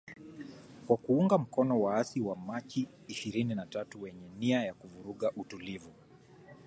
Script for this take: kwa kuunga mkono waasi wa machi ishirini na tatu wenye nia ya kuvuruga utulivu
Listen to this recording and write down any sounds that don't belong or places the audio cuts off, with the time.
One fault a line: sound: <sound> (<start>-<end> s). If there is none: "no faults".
no faults